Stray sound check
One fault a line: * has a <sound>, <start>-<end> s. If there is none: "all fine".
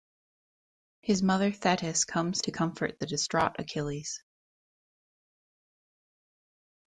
all fine